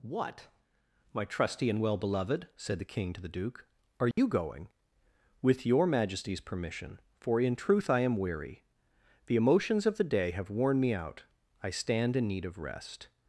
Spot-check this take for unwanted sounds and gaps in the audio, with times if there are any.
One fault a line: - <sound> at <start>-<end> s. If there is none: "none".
- dropout at 4.1-4.2 s